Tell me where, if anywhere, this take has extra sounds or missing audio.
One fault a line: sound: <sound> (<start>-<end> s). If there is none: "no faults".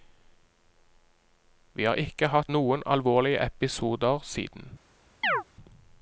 sound: chirp (5.2-5.4 s)